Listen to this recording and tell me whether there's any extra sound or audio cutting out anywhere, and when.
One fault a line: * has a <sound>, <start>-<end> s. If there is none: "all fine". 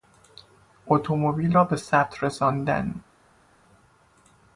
all fine